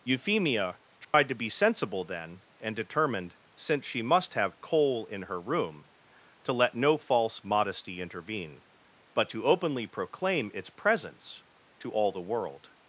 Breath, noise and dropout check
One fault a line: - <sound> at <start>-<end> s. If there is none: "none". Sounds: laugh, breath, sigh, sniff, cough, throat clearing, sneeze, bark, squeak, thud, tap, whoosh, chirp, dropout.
- dropout at 1.0-1.1 s